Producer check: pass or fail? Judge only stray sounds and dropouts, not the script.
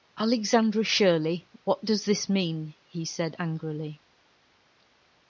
pass